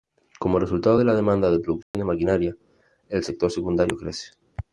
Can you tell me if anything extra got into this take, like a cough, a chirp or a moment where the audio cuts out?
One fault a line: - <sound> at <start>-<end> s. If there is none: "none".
- dropout at 1.8-1.9 s